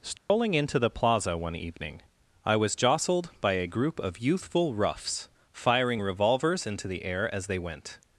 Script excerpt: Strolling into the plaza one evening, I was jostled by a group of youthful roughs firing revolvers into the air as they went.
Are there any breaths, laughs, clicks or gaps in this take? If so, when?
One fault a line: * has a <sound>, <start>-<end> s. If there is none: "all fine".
* has a dropout, 0.2-0.3 s